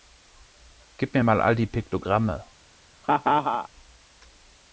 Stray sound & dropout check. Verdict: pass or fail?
fail